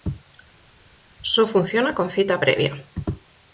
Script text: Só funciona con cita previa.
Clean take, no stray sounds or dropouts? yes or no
yes